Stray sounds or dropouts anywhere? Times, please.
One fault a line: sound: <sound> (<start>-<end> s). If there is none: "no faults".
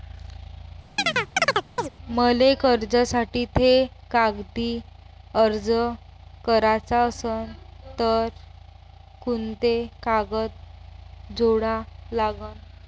sound: chirp (1.0-1.9 s)